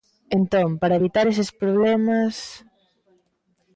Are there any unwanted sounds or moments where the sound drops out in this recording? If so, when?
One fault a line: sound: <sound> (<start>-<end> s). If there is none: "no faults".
no faults